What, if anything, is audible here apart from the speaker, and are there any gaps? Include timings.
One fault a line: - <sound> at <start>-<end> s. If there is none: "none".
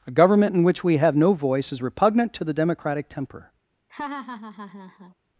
- laugh at 3.9-5.1 s